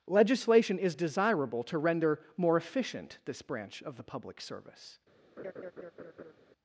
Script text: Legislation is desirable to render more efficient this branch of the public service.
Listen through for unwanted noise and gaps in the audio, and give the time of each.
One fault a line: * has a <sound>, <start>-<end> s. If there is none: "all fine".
* has a laugh, 5.4-6.3 s